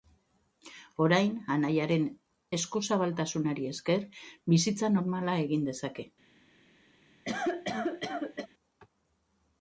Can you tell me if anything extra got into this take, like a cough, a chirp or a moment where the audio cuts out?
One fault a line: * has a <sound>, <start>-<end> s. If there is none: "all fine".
* has a cough, 7.3-8.5 s